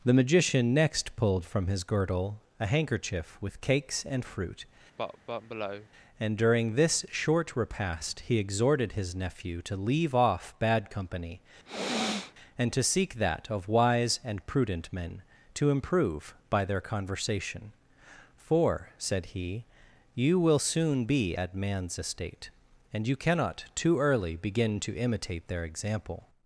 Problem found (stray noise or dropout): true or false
true